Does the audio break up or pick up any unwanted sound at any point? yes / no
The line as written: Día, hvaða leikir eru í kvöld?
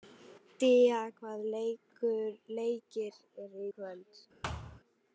yes